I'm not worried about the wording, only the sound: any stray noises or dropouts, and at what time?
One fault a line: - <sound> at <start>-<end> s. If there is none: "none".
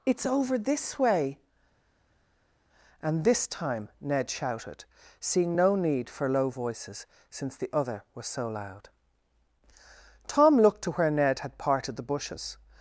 none